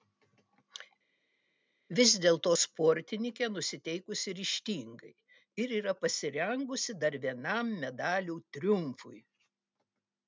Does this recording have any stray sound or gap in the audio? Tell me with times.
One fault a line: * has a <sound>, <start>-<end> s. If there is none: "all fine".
all fine